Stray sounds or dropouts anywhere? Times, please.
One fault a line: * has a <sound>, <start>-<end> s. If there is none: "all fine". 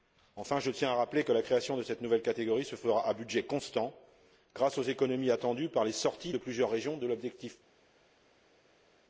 all fine